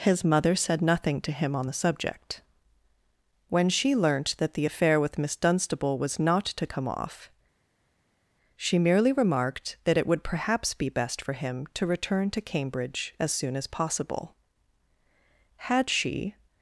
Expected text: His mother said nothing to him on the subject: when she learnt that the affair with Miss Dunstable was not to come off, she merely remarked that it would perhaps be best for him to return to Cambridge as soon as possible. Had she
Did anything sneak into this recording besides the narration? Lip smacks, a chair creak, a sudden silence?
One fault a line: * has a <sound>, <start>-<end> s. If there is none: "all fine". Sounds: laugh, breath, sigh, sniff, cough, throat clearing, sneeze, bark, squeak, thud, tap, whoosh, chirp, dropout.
all fine